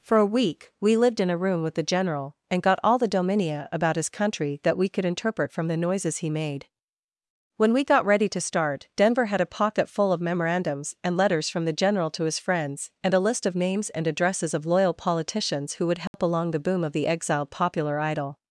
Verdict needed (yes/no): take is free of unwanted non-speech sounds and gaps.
no